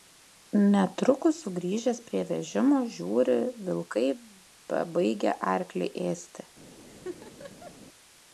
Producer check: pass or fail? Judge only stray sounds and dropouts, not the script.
fail